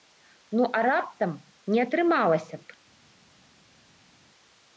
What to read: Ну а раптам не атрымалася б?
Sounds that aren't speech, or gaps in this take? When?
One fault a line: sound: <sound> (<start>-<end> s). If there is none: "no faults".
no faults